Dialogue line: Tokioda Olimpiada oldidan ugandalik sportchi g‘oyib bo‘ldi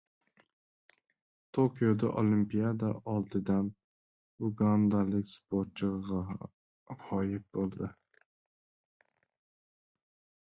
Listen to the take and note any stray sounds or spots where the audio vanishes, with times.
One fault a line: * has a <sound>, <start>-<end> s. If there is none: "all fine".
all fine